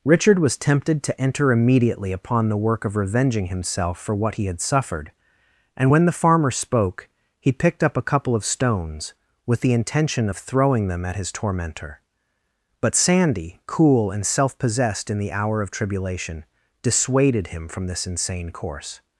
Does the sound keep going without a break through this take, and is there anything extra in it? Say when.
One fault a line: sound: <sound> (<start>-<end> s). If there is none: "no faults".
no faults